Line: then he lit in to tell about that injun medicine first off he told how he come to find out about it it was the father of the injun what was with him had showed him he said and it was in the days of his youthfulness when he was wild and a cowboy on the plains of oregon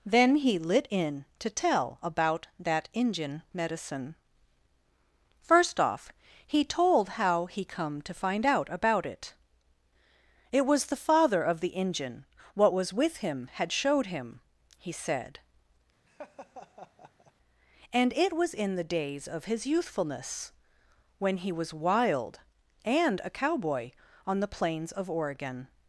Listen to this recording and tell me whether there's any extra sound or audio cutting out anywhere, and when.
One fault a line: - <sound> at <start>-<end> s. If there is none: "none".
- laugh at 16.1-17.3 s